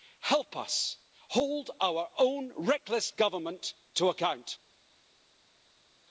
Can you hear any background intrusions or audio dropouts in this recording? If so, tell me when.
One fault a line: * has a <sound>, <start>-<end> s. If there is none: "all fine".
all fine